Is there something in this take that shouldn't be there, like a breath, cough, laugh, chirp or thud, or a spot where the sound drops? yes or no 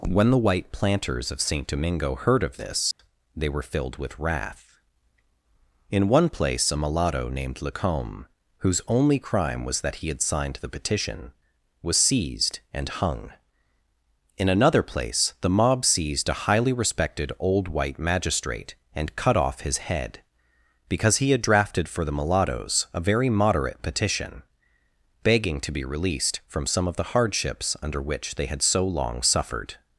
yes